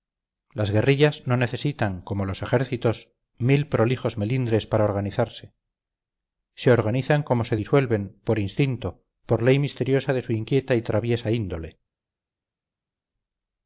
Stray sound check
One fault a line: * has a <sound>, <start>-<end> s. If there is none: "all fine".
all fine